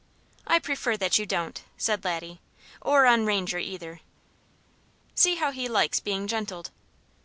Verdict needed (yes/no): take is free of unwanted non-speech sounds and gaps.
yes